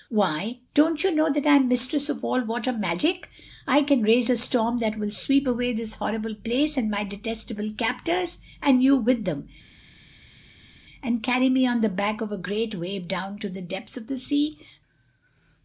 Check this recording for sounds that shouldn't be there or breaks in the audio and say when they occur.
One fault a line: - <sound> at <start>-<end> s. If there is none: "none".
none